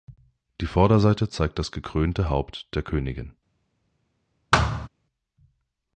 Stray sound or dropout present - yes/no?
yes